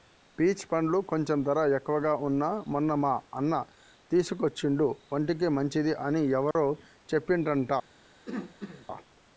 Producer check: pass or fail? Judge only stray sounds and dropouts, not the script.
fail